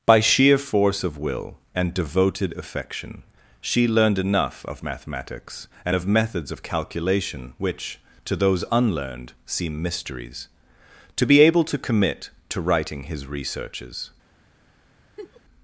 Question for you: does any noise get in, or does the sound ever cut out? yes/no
yes